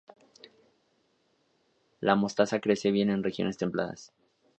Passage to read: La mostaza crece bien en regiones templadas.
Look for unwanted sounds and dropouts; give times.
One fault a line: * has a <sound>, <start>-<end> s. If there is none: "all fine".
all fine